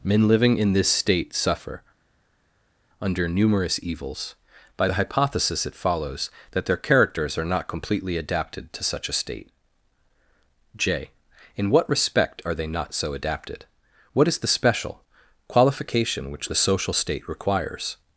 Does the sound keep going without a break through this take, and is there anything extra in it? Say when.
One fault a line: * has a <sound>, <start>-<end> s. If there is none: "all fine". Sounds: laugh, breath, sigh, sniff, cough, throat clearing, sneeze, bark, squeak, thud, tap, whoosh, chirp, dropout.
all fine